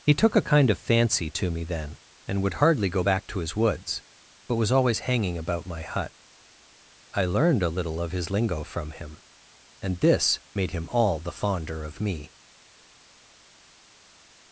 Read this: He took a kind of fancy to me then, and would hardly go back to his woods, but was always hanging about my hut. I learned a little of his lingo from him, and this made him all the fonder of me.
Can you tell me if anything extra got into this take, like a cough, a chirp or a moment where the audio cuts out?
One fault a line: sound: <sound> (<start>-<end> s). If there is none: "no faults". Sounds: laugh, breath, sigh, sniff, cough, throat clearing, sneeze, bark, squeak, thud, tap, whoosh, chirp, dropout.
no faults